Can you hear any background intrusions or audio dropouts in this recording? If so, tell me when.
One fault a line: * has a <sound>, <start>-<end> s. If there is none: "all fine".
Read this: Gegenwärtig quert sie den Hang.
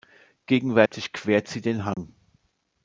* has a dropout, 0.9-0.9 s
* has a dropout, 1.9-2.0 s